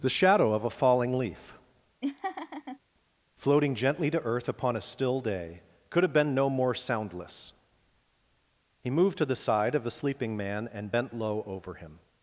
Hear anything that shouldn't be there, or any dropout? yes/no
yes